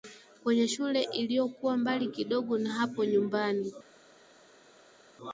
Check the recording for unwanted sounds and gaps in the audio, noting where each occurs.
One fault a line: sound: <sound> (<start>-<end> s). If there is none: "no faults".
no faults